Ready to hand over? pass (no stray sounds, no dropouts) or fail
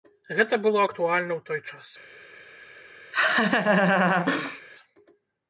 fail